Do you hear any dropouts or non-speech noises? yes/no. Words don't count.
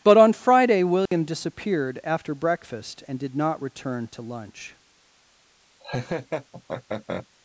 yes